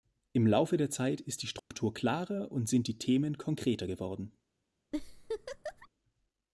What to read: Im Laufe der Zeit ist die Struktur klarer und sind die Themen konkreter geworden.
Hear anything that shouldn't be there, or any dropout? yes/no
yes